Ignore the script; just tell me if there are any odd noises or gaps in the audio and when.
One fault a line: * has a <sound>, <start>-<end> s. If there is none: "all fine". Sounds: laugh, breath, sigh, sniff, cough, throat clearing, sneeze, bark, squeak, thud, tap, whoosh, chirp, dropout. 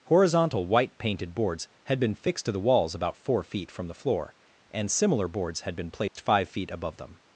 * has a dropout, 6.1-6.2 s